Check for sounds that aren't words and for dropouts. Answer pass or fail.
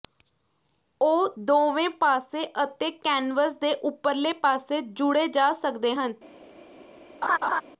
fail